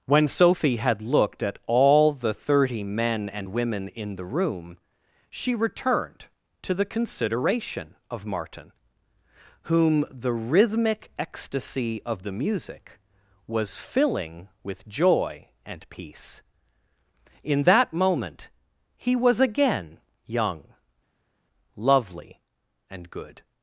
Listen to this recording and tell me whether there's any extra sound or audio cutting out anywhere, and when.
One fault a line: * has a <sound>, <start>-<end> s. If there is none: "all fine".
all fine